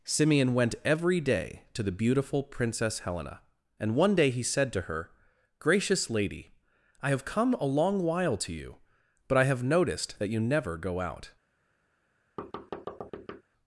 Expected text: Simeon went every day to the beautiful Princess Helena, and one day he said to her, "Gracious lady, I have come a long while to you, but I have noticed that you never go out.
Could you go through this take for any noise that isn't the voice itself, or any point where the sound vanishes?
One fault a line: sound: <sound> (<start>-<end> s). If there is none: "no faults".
sound: thud (12.4-13.4 s)